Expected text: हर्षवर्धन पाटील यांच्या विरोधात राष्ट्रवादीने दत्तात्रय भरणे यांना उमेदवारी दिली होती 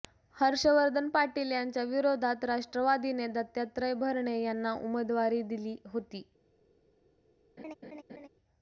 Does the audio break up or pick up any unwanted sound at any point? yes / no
yes